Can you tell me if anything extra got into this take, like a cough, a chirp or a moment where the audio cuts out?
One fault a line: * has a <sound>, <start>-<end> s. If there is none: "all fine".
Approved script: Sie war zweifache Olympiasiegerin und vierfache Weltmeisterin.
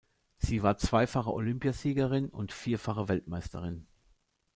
all fine